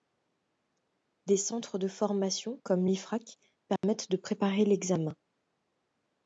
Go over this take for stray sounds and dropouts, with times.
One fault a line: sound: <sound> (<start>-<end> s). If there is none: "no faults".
sound: dropout (3.8-3.8 s)